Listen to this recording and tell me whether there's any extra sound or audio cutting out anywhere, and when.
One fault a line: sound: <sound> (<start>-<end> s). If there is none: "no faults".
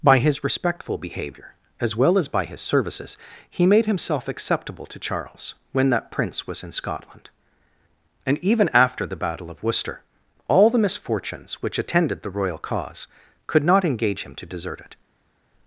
no faults